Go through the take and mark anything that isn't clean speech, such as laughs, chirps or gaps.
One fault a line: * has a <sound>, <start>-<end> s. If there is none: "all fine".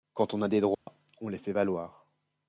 * has a dropout, 0.7-0.9 s